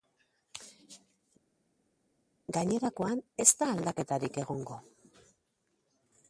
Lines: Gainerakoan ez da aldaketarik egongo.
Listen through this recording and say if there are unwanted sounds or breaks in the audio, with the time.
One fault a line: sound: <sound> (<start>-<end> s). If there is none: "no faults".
no faults